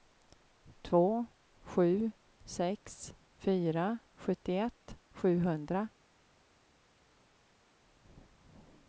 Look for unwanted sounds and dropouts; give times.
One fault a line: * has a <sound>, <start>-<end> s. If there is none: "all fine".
all fine